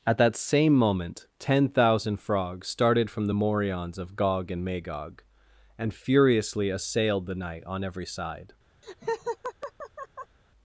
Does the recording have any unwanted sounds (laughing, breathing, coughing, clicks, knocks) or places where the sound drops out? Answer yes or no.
yes